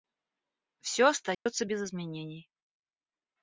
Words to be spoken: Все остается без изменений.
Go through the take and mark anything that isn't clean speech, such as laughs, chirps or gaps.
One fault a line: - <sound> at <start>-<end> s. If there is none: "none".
- dropout at 1.3-1.5 s